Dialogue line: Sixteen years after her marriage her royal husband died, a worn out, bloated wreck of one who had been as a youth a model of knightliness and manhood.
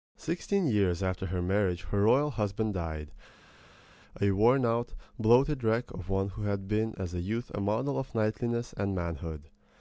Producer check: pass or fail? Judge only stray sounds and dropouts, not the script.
pass